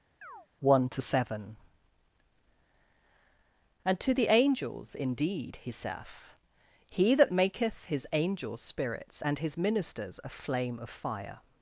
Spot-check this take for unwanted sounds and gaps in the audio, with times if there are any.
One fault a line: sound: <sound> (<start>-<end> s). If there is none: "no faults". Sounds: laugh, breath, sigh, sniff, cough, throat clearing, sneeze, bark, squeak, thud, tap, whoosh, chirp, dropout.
sound: chirp (0.2-0.5 s)